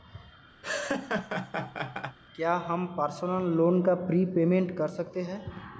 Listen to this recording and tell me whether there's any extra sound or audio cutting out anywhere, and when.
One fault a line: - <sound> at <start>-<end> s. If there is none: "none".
- laugh at 0.6-2.2 s